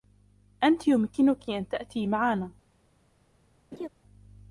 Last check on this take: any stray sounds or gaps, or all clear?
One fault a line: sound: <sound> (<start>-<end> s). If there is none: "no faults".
sound: laugh (3.7-3.9 s)